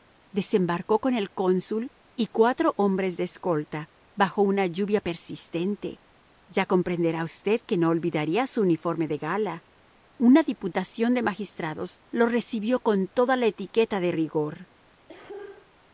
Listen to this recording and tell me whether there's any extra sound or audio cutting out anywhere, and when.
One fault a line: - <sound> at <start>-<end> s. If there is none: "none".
- cough at 15.1-15.7 s